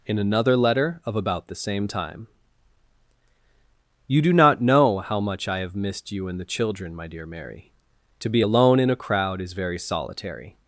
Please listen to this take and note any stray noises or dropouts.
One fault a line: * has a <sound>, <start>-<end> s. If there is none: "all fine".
all fine